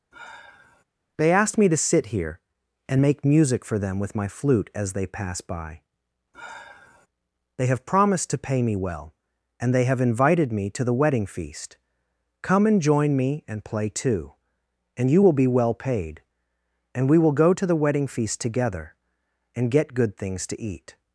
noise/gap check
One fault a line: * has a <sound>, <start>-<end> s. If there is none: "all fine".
* has a sigh, 0.1-0.8 s
* has a sigh, 6.3-7.1 s